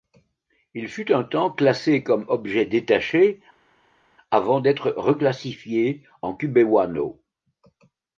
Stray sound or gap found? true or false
false